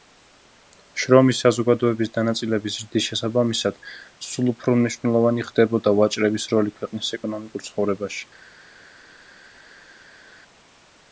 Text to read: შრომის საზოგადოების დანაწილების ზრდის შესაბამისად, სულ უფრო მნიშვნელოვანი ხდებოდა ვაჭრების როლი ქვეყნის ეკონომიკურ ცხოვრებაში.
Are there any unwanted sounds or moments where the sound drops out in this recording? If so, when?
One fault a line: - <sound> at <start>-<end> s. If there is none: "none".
none